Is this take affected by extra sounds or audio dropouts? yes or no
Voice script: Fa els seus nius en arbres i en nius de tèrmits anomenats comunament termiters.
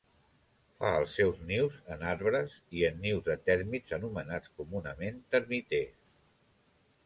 no